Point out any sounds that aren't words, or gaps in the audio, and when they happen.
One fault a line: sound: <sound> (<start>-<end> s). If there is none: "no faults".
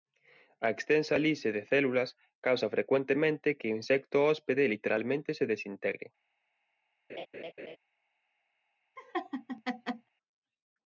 sound: laugh (7.1-7.8 s)
sound: laugh (9.0-10.1 s)